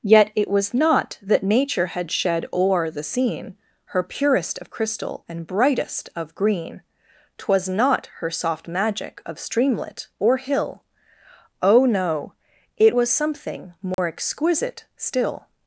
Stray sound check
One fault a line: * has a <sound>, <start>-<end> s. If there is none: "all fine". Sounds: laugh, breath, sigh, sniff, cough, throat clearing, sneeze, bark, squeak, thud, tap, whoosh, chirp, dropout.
* has a dropout, 13.9-14.0 s